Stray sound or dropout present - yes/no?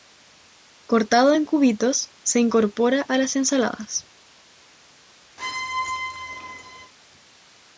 yes